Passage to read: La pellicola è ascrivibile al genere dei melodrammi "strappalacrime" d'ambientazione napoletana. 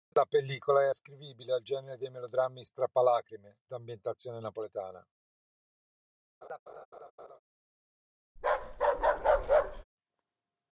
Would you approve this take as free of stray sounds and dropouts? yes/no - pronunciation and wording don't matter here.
no